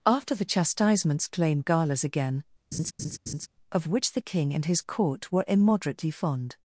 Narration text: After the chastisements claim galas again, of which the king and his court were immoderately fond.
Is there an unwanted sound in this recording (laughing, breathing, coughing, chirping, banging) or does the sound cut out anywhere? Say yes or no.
yes